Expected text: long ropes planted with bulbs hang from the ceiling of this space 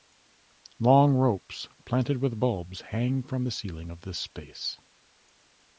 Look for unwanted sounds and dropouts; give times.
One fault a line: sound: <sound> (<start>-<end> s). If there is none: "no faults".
no faults